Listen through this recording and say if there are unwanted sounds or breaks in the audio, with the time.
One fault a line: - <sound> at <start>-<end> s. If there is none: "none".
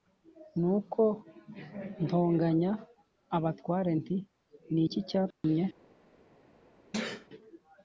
- dropout at 5.3-5.4 s
- sneeze at 6.9-7.3 s